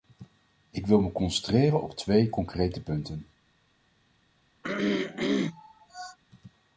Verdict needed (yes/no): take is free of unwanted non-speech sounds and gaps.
no